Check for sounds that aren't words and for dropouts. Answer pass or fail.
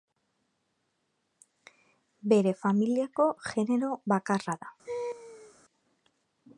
fail